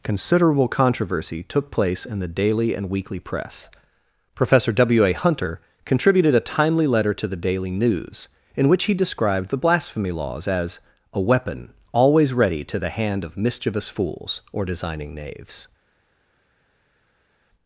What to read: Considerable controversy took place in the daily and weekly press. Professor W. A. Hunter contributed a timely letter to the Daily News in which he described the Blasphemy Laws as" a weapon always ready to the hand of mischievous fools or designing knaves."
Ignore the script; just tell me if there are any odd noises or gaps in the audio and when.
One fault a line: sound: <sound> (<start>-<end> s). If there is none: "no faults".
no faults